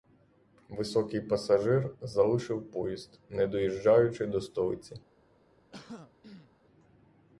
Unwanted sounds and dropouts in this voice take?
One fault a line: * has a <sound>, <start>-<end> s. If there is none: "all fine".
* has a throat clearing, 5.7-6.5 s